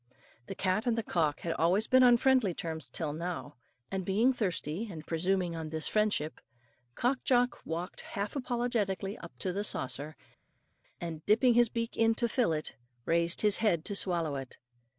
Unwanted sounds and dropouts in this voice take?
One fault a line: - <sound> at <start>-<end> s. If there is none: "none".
none